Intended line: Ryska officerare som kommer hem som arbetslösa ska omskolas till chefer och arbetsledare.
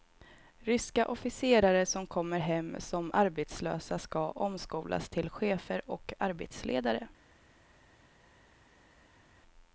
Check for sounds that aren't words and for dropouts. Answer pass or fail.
pass